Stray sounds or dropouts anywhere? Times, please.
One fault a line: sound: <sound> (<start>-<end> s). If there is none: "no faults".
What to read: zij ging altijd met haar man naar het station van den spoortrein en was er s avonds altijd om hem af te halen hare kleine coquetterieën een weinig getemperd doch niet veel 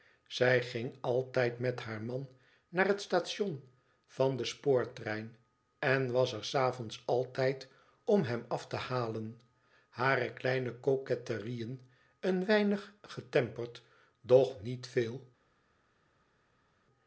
no faults